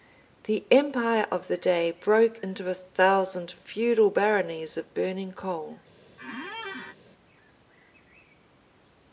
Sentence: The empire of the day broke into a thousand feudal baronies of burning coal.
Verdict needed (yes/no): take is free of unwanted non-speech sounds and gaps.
no